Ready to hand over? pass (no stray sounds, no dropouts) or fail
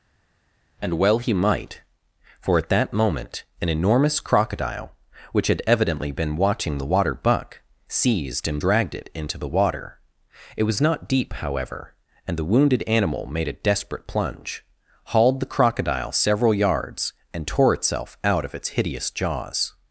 pass